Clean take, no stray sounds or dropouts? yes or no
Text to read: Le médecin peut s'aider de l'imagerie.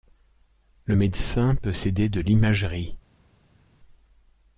yes